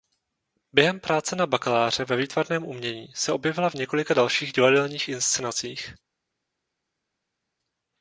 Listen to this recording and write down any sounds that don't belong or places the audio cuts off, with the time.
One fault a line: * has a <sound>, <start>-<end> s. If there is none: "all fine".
all fine